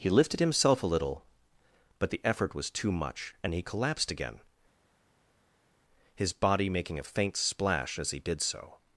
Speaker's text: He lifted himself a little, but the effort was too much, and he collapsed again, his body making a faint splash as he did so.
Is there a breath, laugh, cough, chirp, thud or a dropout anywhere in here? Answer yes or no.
no